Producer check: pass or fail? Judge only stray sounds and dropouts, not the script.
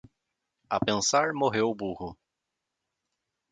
pass